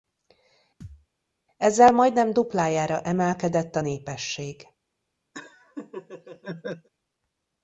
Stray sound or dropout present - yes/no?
yes